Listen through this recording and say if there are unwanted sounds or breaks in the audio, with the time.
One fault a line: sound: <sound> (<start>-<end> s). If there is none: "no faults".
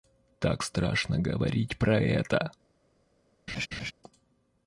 sound: laugh (3.5-3.9 s)